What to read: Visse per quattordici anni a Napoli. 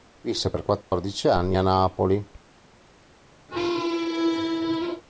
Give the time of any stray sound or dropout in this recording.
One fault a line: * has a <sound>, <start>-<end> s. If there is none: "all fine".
* has a dropout, 0.8-0.9 s
* has a squeak, 3.5-5.0 s